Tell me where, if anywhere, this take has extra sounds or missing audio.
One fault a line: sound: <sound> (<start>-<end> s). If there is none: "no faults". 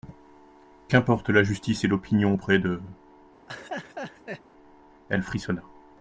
sound: laugh (3.5-4.4 s)